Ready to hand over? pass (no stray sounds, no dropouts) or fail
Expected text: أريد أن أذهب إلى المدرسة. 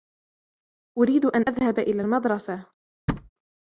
fail